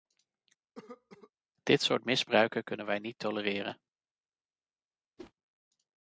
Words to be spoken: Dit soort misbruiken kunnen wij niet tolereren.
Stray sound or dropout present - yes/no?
yes